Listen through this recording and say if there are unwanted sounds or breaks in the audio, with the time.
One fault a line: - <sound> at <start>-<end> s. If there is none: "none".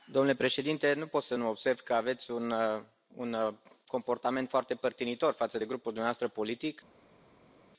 none